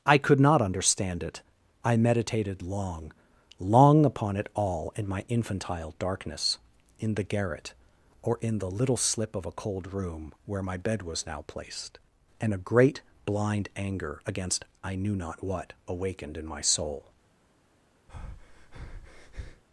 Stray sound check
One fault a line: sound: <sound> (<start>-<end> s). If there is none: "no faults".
sound: breath (18.1-19.6 s)